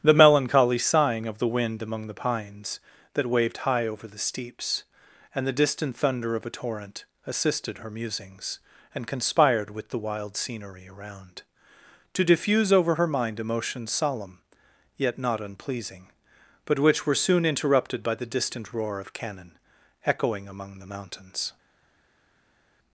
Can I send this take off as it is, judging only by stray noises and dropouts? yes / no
yes